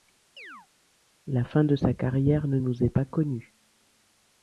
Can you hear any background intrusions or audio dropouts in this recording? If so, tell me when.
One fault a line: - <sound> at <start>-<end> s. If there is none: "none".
- chirp at 0.4-0.7 s